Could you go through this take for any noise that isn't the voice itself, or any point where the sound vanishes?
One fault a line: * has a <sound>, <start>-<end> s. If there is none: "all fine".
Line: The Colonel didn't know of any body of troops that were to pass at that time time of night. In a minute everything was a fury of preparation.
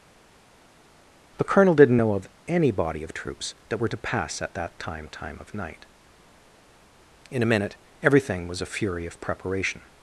all fine